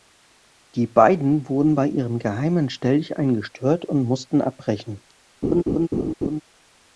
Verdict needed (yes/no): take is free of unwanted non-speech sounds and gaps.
no